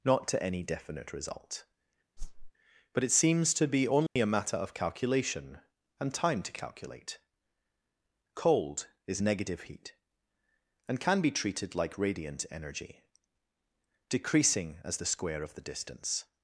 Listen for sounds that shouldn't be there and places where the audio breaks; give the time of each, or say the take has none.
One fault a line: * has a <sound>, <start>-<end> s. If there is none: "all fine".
* has a whoosh, 2.2-2.5 s
* has a dropout, 4.1-4.2 s